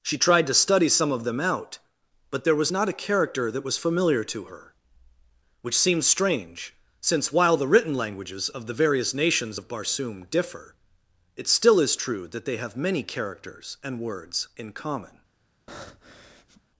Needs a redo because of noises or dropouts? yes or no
yes